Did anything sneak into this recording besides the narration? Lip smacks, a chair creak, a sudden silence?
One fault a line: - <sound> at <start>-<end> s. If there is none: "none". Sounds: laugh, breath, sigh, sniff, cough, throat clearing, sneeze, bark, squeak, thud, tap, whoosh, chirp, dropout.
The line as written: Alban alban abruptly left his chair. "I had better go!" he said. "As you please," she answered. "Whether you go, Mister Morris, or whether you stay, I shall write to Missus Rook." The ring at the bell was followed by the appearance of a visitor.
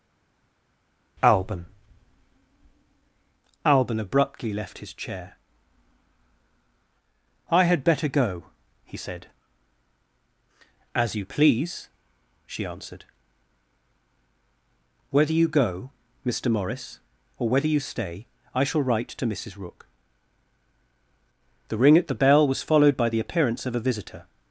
none